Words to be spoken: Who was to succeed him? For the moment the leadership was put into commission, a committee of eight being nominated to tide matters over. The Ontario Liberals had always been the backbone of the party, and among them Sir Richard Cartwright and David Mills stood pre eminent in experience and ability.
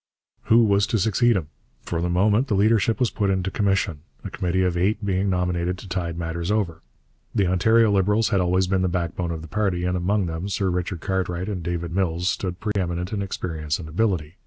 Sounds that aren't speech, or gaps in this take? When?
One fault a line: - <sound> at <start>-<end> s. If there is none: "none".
- dropout at 12.7-12.8 s